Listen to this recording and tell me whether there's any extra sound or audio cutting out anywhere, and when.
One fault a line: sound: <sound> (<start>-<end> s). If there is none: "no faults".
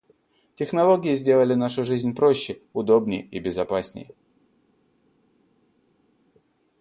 no faults